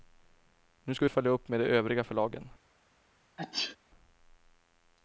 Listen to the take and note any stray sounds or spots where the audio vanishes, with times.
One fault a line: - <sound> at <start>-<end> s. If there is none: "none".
- sneeze at 3.4-3.8 s